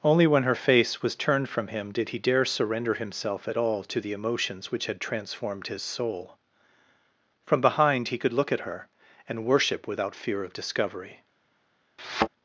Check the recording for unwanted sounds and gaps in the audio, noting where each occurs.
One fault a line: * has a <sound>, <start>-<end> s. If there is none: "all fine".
* has a thud, 12.0-12.3 s